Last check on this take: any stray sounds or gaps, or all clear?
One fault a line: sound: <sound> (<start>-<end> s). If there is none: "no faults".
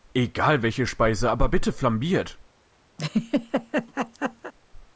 sound: laugh (3.0-4.5 s)